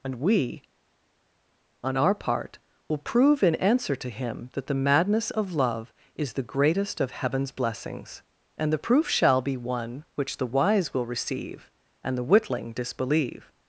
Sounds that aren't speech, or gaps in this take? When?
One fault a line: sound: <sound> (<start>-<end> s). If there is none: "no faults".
no faults